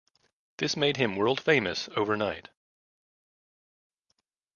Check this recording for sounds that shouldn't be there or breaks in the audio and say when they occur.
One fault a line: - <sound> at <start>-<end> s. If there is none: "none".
none